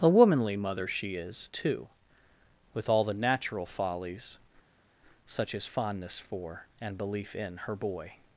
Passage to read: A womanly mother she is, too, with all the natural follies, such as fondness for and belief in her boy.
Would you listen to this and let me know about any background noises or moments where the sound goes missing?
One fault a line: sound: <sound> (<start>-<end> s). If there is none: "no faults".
no faults